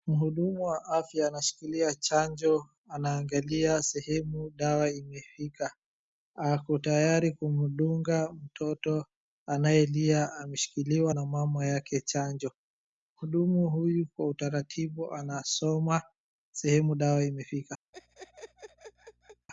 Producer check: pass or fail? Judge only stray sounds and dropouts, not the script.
fail